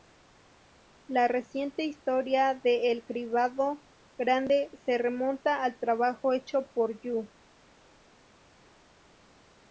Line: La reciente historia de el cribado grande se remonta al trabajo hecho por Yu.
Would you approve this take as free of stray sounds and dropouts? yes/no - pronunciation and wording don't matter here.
yes